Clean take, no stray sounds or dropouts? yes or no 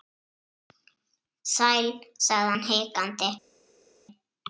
yes